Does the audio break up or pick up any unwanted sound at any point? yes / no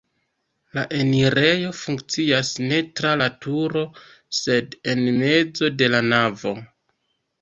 no